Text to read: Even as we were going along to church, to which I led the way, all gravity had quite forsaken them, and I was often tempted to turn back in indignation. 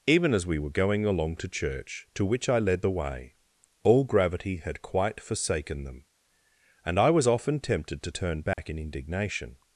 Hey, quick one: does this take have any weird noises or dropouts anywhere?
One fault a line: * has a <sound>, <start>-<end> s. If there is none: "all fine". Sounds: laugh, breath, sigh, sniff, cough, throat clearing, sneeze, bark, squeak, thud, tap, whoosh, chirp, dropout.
* has a dropout, 8.5-8.6 s